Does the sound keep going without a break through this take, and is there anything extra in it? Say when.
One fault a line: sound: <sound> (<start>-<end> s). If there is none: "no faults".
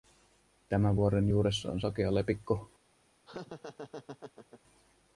sound: laugh (3.3-4.6 s)